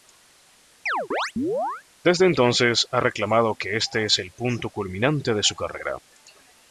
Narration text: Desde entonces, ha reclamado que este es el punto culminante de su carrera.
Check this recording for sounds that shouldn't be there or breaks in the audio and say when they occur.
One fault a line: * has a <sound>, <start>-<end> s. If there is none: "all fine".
* has a chirp, 0.9-1.8 s